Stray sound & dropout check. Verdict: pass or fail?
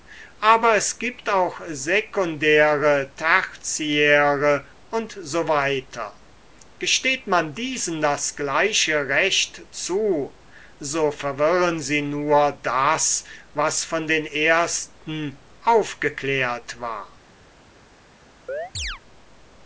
fail